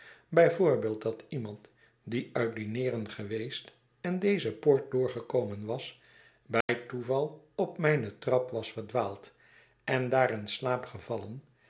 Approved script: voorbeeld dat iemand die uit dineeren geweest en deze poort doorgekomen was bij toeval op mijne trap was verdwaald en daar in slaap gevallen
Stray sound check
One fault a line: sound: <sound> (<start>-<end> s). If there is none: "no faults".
sound: dropout (6.6-6.7 s)